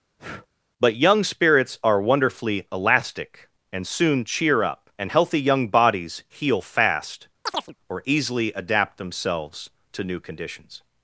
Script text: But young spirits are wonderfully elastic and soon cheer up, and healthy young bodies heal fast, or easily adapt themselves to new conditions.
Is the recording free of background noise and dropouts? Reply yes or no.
no